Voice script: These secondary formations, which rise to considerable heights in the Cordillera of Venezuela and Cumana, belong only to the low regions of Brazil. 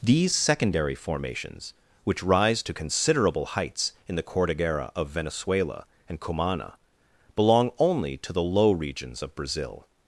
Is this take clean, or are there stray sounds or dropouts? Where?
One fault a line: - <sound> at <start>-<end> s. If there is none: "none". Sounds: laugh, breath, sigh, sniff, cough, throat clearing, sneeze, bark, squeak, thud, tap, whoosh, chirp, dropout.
none